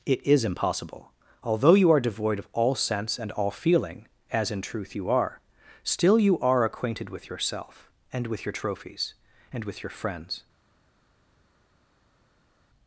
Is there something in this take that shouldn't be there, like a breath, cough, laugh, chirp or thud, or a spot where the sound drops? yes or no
no